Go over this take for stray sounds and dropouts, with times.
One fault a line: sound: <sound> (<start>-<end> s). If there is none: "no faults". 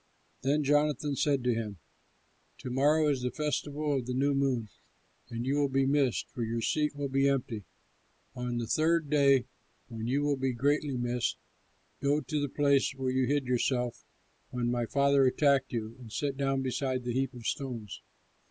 no faults